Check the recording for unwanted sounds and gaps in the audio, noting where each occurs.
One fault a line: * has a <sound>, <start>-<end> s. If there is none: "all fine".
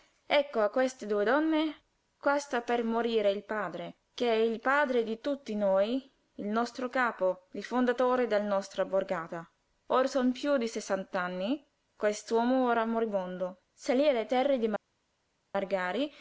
all fine